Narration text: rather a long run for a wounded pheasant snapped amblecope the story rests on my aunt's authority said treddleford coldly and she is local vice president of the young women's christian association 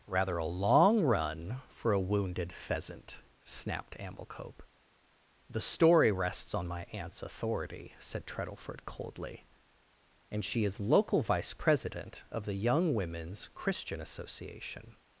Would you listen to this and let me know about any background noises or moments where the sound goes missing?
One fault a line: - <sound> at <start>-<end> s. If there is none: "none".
none